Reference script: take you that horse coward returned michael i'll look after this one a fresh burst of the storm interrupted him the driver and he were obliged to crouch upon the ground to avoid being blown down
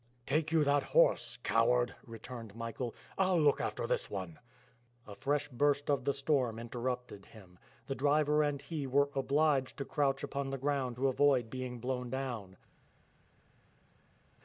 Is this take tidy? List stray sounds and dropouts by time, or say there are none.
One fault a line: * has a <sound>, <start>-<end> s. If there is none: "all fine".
all fine